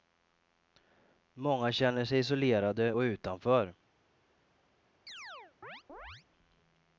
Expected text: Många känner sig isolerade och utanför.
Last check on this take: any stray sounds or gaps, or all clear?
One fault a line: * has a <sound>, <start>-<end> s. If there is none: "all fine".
* has a chirp, 5.1-6.3 s